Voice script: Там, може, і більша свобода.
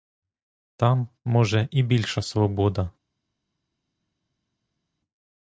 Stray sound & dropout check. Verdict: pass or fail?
pass